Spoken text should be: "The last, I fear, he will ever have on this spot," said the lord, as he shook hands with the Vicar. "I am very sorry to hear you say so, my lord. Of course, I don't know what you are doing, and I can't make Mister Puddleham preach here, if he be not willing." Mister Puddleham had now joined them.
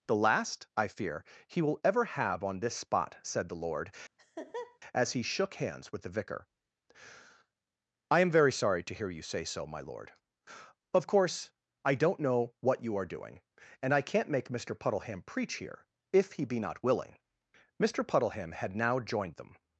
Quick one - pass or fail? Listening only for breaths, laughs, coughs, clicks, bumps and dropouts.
fail